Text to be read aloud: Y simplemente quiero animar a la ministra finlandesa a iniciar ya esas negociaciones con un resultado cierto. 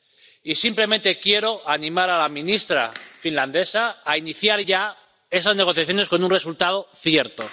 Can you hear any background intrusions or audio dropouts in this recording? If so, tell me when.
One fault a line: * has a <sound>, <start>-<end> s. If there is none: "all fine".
all fine